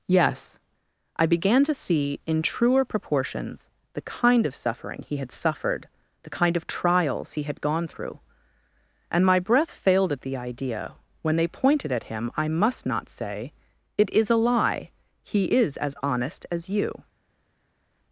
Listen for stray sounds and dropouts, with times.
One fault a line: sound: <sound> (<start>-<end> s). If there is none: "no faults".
no faults